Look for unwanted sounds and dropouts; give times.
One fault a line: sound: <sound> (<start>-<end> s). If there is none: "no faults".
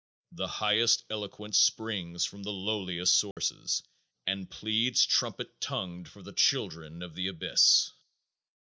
sound: dropout (3.3-3.4 s)